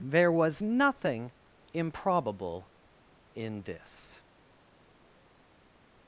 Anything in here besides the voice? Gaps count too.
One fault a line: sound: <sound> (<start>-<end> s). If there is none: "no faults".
no faults